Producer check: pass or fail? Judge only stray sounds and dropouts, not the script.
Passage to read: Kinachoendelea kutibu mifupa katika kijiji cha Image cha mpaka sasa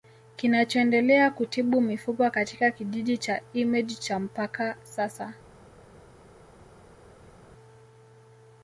pass